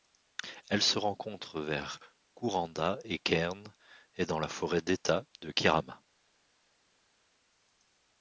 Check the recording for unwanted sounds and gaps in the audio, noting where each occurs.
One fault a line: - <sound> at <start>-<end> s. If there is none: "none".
none